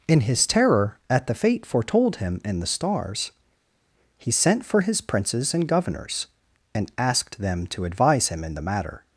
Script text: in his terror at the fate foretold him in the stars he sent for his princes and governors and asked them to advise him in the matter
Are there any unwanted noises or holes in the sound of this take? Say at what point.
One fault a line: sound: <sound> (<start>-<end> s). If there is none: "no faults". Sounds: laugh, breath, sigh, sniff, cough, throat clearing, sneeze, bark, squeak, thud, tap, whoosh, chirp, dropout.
no faults